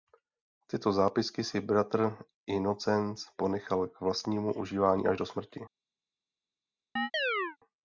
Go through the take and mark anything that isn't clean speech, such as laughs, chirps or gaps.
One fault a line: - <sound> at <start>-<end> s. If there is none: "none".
- chirp at 7.0-7.6 s